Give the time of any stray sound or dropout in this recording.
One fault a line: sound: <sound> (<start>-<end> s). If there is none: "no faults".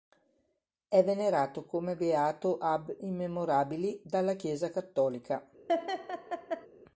sound: laugh (5.7-6.7 s)